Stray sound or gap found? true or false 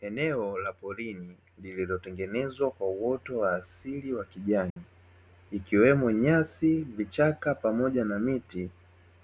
true